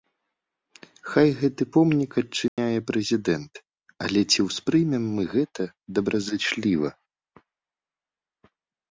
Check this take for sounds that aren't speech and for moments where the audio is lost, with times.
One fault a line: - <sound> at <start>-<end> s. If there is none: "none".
- dropout at 2.5-2.6 s